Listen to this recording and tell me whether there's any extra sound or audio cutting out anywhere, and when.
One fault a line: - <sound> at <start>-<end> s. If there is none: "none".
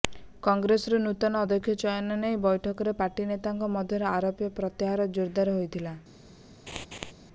- laugh at 6.7-7.1 s